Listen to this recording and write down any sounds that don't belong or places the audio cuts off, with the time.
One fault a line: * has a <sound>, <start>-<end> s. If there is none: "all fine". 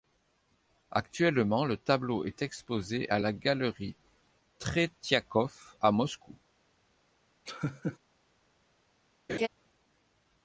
* has a laugh, 7.5-8.0 s
* has a laugh, 9.3-9.5 s